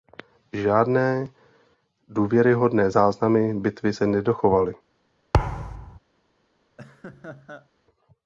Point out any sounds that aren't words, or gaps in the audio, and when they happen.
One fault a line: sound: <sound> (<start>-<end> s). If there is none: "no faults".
sound: thud (5.3-6.0 s)
sound: laugh (6.8-7.7 s)